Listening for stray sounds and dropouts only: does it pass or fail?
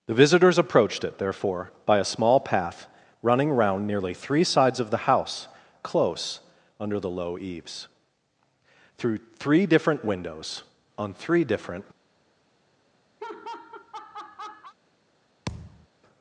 fail